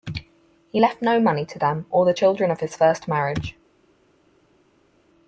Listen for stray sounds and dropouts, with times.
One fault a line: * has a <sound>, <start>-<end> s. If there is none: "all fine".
all fine